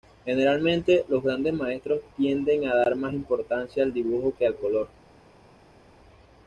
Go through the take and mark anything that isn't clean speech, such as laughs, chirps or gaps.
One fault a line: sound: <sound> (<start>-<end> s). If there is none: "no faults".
no faults